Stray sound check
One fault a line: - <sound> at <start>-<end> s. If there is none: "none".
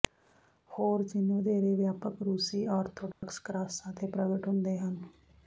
- dropout at 3.1-3.2 s